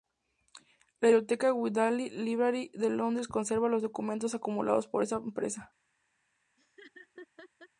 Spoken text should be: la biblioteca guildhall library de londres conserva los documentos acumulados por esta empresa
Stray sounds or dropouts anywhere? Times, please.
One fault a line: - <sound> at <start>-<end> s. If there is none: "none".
- laugh at 6.6-7.7 s